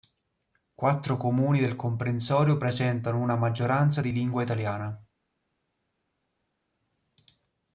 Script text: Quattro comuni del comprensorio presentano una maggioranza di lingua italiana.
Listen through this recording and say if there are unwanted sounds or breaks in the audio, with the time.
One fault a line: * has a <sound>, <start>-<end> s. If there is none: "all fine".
all fine